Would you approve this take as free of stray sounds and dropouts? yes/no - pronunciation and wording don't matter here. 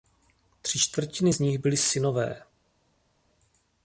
yes